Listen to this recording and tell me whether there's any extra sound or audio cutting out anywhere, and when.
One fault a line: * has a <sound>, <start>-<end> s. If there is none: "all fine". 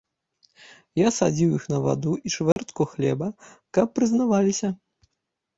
* has a dropout, 2.5-2.6 s